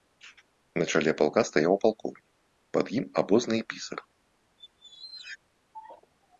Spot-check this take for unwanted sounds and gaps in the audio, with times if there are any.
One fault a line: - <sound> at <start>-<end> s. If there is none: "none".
- squeak at 4.6-5.4 s